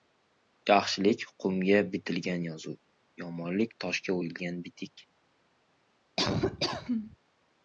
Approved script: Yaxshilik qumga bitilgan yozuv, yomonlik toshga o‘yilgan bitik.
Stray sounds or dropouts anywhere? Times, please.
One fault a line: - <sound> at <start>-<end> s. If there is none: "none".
- laugh at 6.2-7.2 s